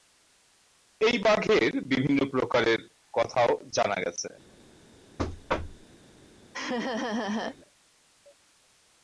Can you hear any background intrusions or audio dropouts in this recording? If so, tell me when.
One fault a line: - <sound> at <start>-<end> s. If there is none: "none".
- thud at 5.2-5.9 s
- laugh at 6.5-7.6 s